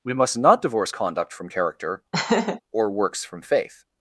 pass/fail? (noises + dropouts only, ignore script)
fail